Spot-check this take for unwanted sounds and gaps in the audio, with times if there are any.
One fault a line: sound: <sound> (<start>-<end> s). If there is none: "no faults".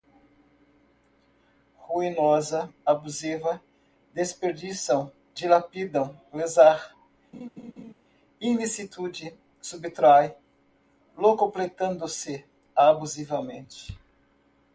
sound: laugh (7.3-7.9 s)